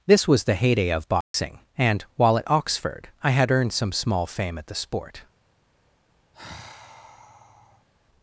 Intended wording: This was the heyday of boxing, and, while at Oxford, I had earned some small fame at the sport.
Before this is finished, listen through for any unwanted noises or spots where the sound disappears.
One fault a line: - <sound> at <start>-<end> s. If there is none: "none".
- dropout at 1.2-1.3 s
- sigh at 6.3-7.9 s